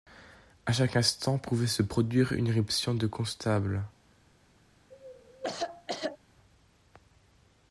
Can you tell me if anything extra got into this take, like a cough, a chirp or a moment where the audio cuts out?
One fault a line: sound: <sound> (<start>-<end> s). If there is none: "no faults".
sound: cough (4.9-6.2 s)